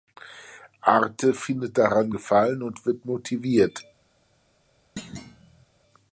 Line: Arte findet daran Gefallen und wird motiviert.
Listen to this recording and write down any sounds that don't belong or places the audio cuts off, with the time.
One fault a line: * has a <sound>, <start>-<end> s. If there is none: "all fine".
* has a thud, 5.0-5.7 s